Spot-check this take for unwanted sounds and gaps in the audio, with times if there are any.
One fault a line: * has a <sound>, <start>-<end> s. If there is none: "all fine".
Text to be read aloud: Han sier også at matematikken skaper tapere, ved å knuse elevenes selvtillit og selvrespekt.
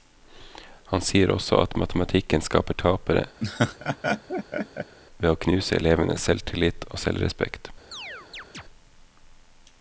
* has a laugh, 3.4-5.0 s
* has a chirp, 7.9-8.6 s